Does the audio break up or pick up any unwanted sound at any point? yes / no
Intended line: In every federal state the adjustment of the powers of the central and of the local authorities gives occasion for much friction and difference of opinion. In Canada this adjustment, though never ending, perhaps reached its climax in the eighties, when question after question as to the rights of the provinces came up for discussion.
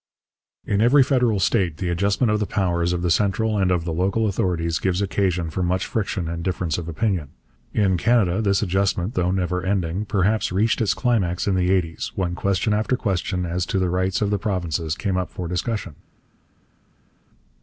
no